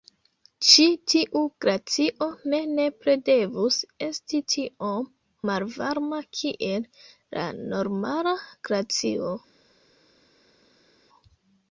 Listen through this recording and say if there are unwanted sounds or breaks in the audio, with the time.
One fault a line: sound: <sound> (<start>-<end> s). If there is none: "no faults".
no faults